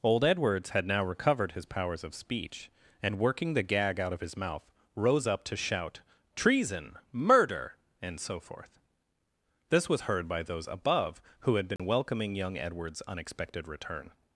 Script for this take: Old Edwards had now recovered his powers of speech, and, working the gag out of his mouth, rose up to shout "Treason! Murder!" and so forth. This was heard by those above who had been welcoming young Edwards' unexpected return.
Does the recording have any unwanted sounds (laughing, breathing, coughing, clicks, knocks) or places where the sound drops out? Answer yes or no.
yes